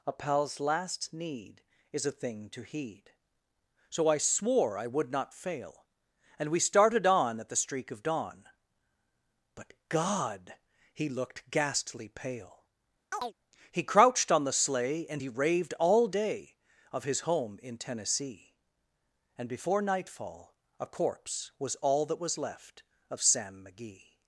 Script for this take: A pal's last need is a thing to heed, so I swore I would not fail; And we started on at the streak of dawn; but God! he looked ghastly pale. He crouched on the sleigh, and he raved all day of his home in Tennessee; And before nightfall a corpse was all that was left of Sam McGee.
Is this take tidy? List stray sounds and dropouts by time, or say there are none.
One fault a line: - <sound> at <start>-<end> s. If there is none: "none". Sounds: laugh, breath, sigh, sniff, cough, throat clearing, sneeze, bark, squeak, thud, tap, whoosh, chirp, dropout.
- chirp at 13.1-13.3 s